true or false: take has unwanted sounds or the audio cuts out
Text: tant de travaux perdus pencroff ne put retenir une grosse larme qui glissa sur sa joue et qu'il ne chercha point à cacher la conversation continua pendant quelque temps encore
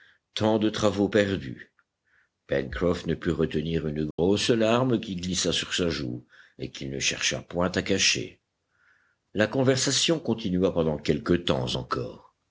true